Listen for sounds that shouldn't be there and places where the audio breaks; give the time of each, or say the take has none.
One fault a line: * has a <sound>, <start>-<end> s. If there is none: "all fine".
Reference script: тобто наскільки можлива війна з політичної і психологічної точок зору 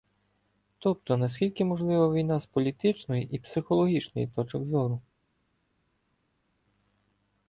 all fine